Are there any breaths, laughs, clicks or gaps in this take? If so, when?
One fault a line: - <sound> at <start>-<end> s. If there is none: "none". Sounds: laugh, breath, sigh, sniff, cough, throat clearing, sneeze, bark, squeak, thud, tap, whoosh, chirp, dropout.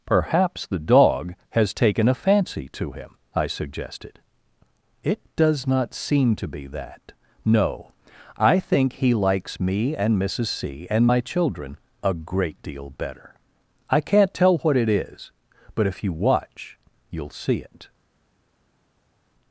none